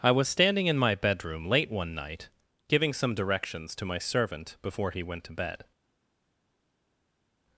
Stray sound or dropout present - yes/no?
no